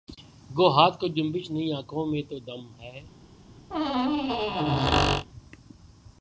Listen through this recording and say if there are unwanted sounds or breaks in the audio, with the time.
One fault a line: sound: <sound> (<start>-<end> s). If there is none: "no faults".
sound: squeak (3.7-5.3 s)